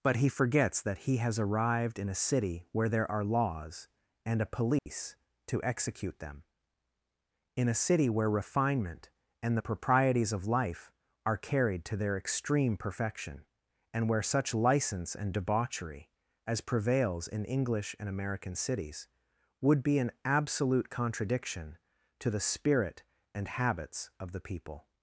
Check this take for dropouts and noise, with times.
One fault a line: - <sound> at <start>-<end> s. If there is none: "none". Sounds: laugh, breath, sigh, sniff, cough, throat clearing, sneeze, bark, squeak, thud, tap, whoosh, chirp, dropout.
- dropout at 4.8-4.9 s